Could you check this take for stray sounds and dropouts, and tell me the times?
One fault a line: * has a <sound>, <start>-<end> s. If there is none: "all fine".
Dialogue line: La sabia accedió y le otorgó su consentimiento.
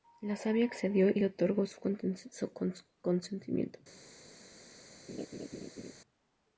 * has a laugh, 5.1-5.9 s